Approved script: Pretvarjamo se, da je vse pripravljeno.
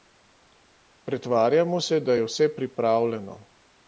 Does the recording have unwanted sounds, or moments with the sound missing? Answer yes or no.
no